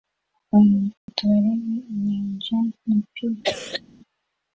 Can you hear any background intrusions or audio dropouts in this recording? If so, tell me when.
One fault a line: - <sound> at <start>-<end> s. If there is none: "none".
- dropout at 1.0-1.1 s
- cough at 3.4-3.8 s